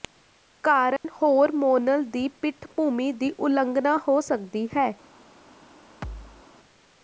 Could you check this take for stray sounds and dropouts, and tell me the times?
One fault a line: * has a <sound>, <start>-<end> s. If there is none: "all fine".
* has a dropout, 1.0-1.0 s
* has a thud, 6.0-6.5 s